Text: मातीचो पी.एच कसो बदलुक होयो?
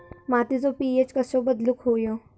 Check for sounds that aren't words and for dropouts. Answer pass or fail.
pass